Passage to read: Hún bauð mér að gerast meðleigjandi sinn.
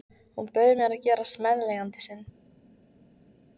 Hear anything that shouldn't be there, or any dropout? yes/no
no